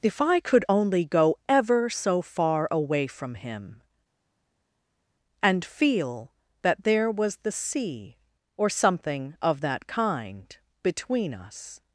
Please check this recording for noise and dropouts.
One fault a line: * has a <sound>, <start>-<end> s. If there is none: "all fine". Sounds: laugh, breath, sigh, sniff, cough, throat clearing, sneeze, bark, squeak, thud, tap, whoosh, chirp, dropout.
all fine